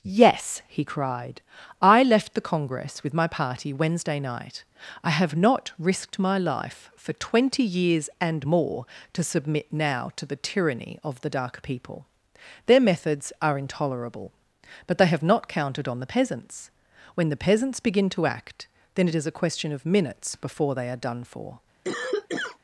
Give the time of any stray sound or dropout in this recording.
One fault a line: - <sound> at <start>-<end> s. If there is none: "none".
- cough at 21.8-22.6 s